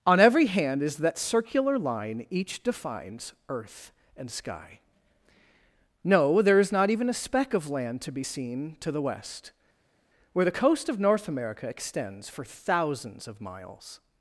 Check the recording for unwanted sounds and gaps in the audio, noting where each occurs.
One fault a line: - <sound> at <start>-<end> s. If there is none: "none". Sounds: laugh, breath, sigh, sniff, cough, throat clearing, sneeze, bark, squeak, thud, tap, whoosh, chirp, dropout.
none